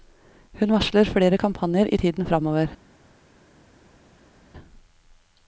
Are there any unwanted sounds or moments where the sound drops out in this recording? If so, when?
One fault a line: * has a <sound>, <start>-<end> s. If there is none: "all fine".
all fine